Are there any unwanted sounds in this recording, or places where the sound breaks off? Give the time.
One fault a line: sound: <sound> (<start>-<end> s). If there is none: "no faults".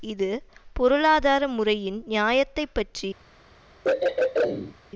sound: throat clearing (3.8-4.8 s)